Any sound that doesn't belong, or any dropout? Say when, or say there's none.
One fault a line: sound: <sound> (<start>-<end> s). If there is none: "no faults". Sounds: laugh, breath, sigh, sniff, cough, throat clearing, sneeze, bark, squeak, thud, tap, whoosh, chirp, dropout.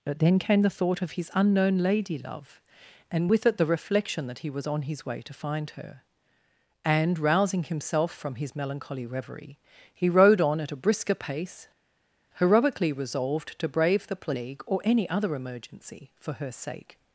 no faults